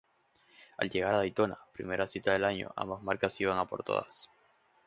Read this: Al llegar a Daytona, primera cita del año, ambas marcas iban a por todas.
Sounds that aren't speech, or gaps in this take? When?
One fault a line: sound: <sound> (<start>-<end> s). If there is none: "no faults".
no faults